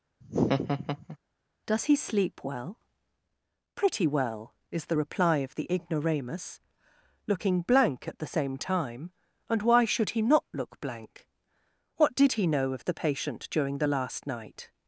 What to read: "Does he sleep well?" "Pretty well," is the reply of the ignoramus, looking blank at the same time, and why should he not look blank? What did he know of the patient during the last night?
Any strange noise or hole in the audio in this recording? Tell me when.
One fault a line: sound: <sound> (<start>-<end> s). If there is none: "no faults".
sound: laugh (0.2-1.2 s)